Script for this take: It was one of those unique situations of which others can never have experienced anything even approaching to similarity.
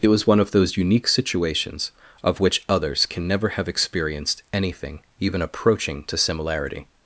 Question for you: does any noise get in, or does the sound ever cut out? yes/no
no